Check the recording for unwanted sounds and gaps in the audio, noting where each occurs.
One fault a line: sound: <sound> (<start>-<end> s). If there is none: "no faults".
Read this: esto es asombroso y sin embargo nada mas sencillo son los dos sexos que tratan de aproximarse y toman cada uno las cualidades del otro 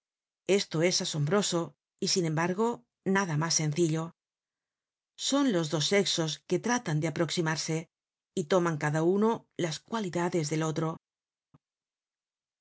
no faults